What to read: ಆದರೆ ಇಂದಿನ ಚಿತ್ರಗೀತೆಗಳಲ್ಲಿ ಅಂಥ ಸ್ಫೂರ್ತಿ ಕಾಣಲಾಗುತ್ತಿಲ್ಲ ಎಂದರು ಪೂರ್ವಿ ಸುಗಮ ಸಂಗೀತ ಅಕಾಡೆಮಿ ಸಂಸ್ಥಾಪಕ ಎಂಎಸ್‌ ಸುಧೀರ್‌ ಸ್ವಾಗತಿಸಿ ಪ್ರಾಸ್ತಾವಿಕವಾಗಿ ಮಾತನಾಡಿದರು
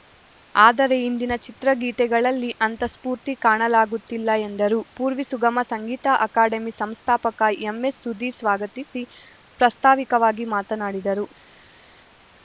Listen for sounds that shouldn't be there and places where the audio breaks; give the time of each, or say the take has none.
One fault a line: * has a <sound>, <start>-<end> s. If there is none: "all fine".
all fine